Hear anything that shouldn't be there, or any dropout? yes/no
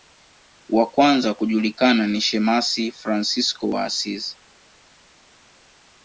no